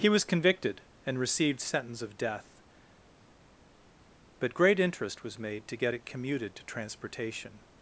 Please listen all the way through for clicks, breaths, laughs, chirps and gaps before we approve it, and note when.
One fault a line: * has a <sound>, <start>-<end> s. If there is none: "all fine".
all fine